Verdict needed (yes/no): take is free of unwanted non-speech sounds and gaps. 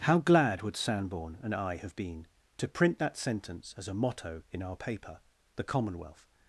yes